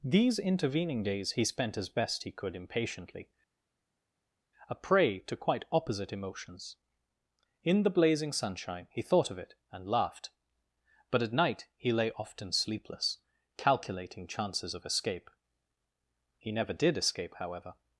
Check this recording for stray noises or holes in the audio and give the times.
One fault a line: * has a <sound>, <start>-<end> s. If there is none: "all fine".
all fine